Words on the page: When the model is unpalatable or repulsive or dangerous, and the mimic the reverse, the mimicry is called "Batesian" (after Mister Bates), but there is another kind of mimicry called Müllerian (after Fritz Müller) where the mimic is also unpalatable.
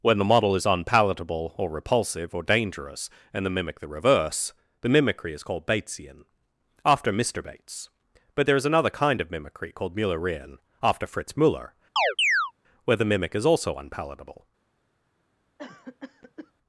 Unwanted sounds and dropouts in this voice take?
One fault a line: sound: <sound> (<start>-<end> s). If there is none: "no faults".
sound: chirp (12.0-12.5 s)
sound: cough (15.6-16.5 s)